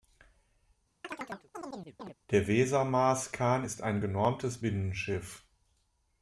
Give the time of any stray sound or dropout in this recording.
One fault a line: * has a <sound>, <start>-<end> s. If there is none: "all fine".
* has a chirp, 1.0-2.1 s